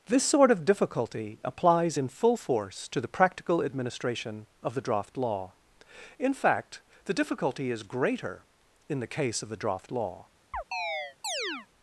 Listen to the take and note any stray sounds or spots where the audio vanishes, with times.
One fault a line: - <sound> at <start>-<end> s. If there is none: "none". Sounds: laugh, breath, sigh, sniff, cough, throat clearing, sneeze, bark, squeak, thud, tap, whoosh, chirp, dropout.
- chirp at 10.5-11.7 s